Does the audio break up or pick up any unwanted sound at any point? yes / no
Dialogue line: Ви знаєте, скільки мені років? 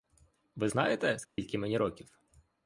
yes